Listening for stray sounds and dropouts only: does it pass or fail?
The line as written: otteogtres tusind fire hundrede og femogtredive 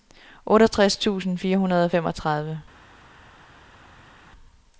pass